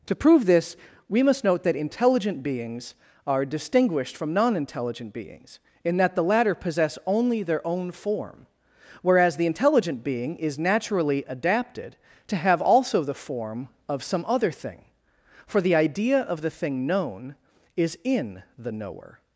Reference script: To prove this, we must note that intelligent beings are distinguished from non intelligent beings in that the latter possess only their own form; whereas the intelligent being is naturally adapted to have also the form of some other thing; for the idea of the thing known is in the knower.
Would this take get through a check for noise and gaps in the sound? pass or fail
pass